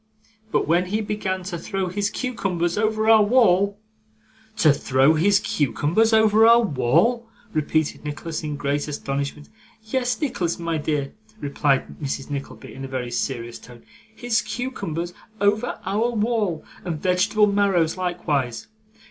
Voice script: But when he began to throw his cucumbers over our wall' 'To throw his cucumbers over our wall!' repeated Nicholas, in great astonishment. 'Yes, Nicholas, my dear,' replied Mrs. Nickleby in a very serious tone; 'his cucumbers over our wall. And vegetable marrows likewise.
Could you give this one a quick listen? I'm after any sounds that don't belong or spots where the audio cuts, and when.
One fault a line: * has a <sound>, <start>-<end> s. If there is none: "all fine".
all fine